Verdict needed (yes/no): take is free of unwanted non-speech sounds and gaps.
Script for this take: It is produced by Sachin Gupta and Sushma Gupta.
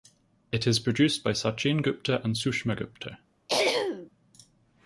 no